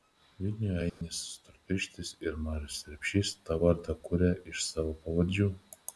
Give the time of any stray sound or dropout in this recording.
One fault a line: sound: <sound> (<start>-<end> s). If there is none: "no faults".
sound: dropout (0.9-1.0 s)